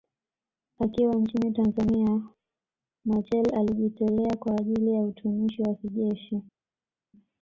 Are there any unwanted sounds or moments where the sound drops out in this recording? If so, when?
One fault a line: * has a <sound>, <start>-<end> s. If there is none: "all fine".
all fine